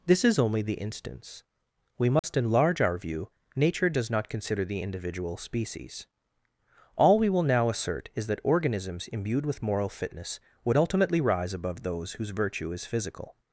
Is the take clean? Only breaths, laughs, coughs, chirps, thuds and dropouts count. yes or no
no